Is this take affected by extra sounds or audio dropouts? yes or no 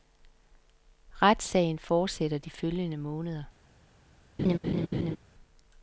yes